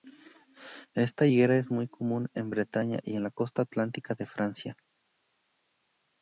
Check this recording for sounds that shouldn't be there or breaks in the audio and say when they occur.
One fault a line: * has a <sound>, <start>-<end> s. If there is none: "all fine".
all fine